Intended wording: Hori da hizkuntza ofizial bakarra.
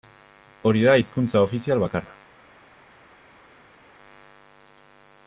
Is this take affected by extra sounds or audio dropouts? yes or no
no